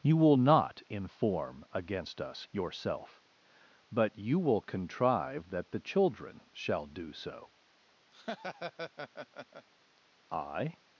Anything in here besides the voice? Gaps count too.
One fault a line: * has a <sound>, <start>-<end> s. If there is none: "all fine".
* has a laugh, 8.1-9.7 s